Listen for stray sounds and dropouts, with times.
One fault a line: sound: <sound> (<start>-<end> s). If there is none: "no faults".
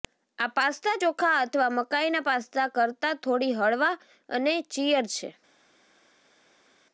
no faults